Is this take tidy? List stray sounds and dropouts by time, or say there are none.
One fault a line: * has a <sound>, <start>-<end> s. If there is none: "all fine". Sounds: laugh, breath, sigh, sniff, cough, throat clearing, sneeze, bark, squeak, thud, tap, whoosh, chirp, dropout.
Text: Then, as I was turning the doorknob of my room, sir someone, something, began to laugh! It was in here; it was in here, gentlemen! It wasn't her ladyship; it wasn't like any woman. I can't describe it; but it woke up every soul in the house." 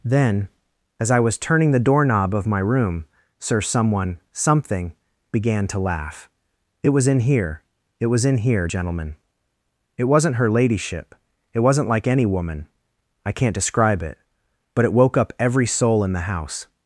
all fine